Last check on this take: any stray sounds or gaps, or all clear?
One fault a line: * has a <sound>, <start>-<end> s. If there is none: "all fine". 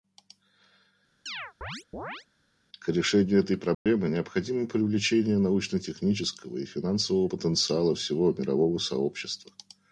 * has a chirp, 1.3-2.3 s
* has a dropout, 3.7-3.9 s